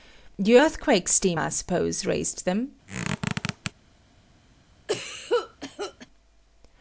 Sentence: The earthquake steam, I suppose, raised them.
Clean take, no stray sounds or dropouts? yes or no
no